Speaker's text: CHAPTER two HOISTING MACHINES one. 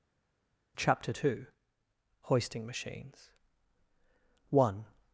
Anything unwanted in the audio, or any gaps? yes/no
no